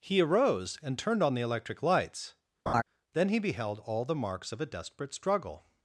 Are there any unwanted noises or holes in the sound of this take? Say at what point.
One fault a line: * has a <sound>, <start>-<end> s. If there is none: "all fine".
* has a laugh, 2.7-2.8 s